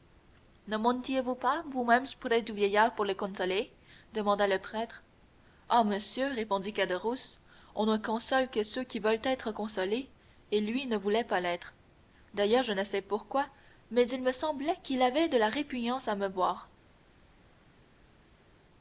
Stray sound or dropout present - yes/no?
no